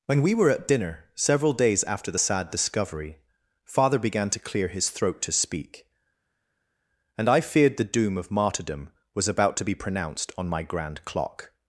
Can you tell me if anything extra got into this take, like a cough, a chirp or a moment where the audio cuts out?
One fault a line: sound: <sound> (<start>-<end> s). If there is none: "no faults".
no faults